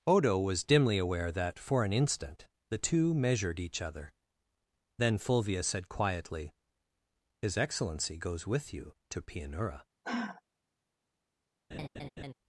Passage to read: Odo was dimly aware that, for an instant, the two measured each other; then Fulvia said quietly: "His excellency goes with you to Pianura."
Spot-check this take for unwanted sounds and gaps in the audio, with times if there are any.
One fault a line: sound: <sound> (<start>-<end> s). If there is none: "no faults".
sound: sigh (10.0-10.4 s)
sound: laugh (11.7-12.3 s)